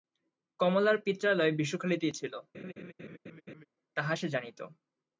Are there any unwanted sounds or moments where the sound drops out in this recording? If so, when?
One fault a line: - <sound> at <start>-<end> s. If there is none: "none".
- laugh at 2.5-3.7 s